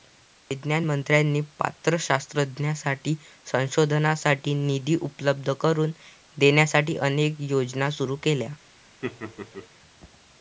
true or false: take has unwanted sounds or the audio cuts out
true